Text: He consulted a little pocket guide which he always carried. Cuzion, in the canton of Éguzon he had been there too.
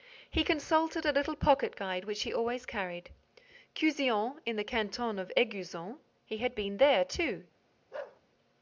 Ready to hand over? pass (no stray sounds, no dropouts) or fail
fail